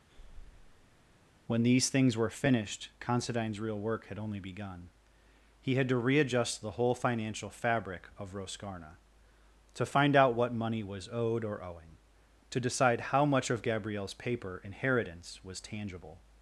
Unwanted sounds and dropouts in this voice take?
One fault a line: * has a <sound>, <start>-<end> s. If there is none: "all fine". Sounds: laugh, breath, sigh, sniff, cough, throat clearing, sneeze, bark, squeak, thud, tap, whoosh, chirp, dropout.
* has a breath, 0.1-1.2 s